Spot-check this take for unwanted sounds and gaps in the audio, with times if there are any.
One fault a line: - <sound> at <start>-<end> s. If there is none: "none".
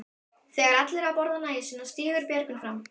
none